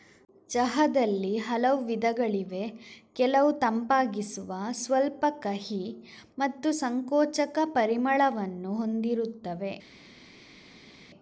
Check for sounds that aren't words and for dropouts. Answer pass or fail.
pass